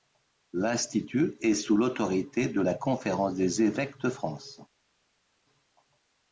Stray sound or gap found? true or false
false